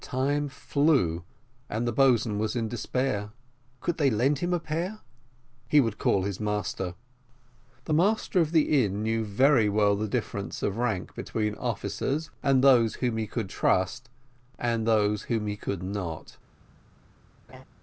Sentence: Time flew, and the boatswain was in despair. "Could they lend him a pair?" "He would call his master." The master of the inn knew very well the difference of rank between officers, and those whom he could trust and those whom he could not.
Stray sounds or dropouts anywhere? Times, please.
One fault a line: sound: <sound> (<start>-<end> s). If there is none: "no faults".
sound: laugh (17.5-17.6 s)